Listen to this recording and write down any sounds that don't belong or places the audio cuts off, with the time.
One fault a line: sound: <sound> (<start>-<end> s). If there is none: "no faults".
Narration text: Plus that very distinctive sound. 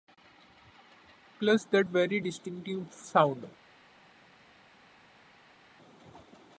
no faults